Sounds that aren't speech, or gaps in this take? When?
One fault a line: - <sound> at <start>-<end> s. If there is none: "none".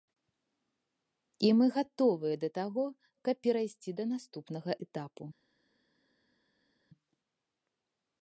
none